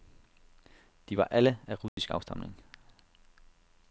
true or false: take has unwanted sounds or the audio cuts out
true